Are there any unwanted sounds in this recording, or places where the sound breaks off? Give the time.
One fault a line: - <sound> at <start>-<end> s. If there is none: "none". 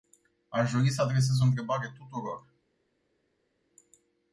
none